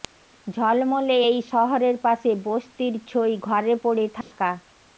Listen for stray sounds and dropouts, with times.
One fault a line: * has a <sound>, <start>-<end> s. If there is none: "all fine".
* has a dropout, 4.2-4.3 s